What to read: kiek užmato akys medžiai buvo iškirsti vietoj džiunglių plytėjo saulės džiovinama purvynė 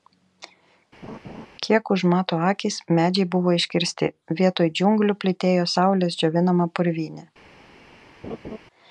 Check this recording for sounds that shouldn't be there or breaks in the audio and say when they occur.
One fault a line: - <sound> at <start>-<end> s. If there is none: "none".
- laugh at 1.0-1.5 s
- laugh at 8.2-8.6 s